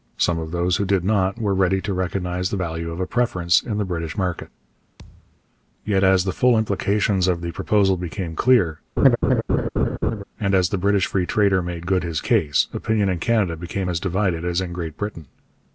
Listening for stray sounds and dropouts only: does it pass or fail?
fail